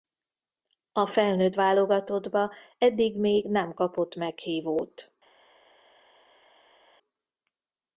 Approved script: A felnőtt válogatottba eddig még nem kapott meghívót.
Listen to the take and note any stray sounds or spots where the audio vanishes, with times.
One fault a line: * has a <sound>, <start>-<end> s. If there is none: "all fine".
all fine